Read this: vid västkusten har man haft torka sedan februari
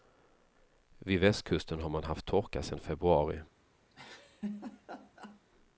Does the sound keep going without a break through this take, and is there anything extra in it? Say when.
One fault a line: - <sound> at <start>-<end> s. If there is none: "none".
- laugh at 3.9-5.4 s